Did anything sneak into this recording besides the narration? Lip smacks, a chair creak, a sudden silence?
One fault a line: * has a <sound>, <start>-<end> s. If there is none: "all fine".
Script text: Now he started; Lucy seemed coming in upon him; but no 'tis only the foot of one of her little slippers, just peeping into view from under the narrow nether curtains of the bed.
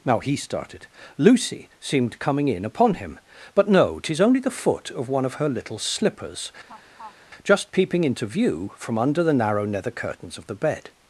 * has a laugh, 6.7-7.2 s